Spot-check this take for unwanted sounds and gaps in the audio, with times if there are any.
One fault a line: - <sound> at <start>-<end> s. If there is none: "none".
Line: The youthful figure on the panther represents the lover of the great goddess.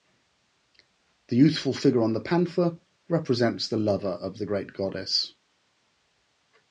none